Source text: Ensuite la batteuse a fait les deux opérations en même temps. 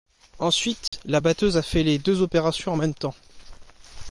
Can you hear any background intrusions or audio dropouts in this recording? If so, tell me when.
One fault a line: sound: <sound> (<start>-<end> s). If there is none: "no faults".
sound: dropout (0.9-0.9 s)